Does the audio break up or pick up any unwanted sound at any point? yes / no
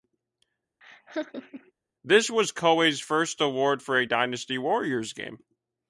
yes